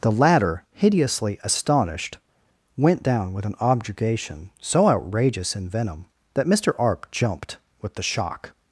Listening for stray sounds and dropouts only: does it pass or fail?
pass